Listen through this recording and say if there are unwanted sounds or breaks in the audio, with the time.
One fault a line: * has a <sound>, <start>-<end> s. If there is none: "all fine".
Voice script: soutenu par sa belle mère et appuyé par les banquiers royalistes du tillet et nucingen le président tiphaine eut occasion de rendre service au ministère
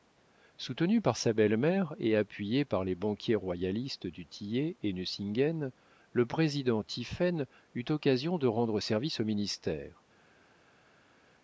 all fine